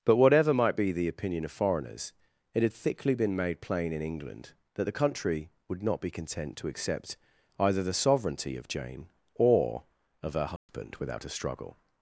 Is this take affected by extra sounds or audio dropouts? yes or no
yes